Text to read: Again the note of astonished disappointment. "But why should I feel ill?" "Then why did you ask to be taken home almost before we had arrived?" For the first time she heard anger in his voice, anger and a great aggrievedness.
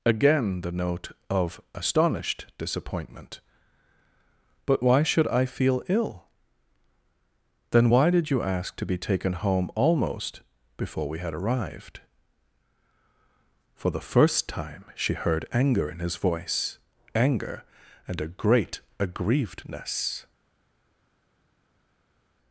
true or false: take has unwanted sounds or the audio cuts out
false